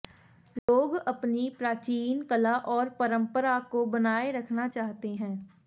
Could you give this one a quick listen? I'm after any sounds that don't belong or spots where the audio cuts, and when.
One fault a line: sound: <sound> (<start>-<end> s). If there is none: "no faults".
sound: dropout (0.6-0.7 s)